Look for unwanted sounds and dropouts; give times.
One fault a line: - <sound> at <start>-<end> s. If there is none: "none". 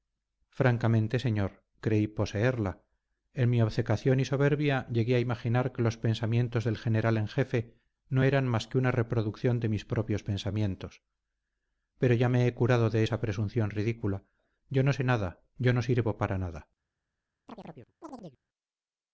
- chirp at 17.5-18.4 s